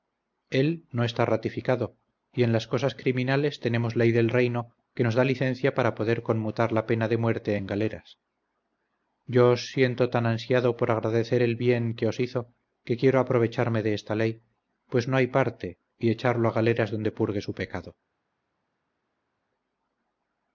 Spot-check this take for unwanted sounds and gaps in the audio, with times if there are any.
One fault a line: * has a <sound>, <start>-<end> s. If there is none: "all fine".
all fine